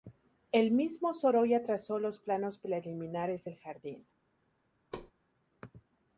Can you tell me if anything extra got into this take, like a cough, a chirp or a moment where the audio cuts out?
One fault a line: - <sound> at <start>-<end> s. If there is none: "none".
- thud at 4.9-5.1 s